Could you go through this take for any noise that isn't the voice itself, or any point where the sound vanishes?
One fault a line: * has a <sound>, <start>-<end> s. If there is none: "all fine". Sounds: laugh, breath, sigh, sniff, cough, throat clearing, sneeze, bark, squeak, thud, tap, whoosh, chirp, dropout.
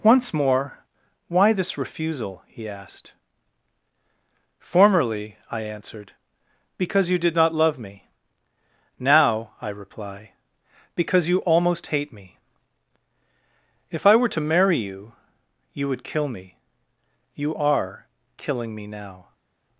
all fine